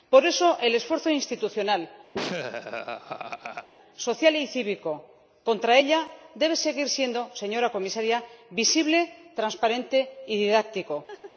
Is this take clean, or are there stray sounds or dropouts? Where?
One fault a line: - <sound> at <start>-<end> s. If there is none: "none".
- laugh at 2.1-3.7 s
- laugh at 11.1-11.3 s